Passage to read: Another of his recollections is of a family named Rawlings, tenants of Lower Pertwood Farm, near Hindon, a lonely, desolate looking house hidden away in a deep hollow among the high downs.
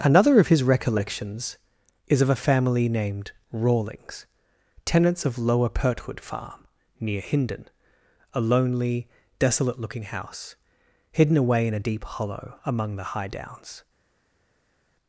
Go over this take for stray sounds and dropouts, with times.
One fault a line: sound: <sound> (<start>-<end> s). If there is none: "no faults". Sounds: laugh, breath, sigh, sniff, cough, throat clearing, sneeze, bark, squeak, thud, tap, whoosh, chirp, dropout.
no faults